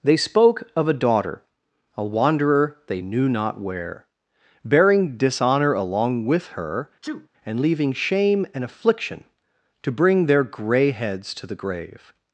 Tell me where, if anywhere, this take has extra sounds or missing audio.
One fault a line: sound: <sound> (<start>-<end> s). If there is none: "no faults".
sound: sneeze (7.0-7.3 s)